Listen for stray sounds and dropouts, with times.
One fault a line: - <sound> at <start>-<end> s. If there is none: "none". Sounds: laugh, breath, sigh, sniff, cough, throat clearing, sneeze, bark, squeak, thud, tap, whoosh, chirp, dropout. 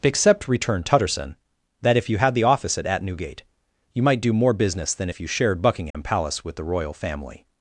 - dropout at 5.9-5.9 s